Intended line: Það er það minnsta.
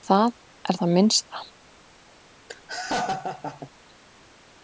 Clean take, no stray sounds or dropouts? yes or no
no